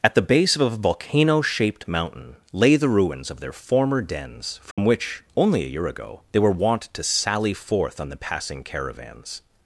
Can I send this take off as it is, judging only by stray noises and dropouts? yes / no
no